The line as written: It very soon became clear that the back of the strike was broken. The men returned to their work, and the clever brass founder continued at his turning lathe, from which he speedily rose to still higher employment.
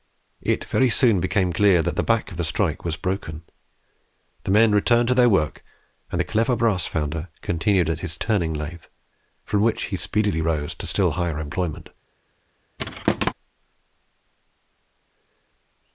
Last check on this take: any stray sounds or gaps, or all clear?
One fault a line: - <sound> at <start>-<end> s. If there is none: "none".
- thud at 12.8-13.3 s